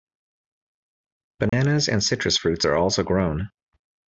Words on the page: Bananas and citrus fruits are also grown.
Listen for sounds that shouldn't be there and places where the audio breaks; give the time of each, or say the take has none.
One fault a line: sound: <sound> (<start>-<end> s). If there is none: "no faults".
sound: dropout (1.5-1.5 s)